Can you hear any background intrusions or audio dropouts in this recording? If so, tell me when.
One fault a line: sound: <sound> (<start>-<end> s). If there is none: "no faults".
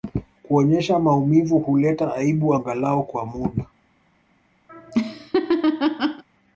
sound: laugh (4.7-6.2 s)